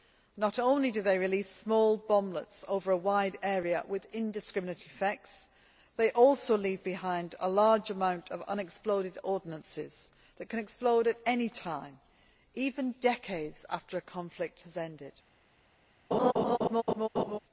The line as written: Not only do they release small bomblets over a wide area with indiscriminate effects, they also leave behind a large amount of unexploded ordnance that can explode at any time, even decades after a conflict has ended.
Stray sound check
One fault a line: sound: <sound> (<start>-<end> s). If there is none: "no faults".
sound: laugh (16.1-17.4 s)